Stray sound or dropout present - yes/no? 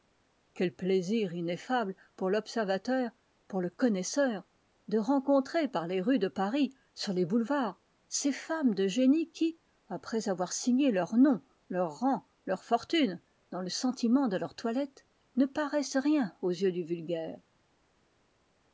no